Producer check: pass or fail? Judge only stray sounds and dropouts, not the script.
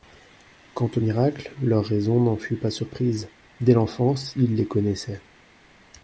pass